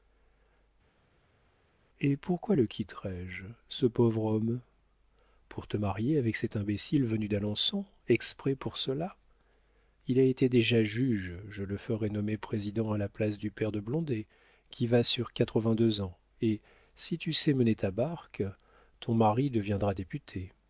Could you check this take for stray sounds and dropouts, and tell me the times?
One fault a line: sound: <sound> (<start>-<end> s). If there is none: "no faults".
no faults